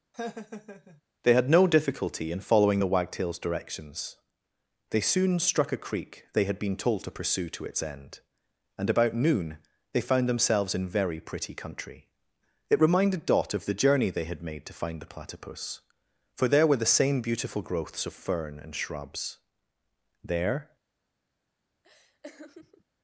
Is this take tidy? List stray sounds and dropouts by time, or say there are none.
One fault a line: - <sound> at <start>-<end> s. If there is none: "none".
- laugh at 0.1-1.0 s
- laugh at 21.8-22.8 s